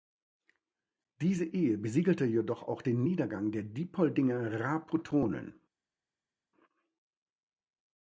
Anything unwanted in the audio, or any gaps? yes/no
no